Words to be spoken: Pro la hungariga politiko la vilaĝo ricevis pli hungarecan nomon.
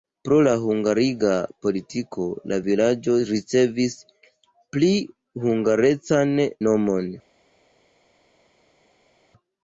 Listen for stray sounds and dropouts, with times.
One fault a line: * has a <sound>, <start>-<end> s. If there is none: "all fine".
all fine